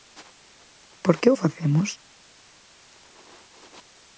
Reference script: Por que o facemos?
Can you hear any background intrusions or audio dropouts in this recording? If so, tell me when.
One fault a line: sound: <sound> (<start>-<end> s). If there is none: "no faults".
no faults